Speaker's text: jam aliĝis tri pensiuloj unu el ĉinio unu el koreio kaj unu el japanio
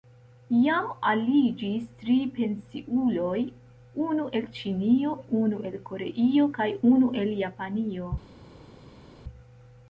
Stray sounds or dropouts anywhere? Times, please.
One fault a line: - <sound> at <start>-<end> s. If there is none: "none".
none